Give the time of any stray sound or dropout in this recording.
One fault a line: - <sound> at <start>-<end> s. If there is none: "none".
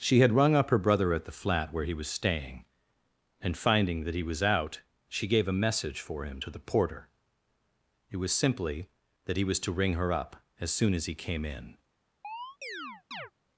- chirp at 12.2-13.3 s